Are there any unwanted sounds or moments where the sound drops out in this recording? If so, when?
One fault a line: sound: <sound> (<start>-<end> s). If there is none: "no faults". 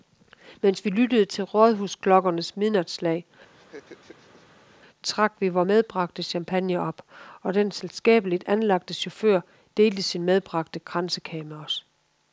sound: laugh (3.5-4.8 s)